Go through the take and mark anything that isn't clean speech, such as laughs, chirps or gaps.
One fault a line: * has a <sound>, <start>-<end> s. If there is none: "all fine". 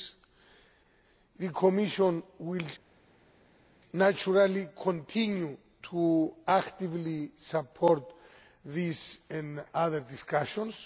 all fine